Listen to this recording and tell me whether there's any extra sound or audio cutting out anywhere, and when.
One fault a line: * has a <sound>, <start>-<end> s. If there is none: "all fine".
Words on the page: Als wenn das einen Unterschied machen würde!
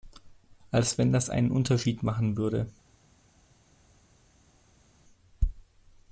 all fine